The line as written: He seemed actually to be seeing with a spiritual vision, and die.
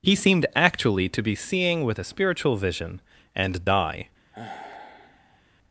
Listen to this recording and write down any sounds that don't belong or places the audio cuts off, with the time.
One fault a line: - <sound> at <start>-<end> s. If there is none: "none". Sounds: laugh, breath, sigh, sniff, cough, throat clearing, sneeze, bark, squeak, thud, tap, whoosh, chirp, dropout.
- sigh at 4.3-5.4 s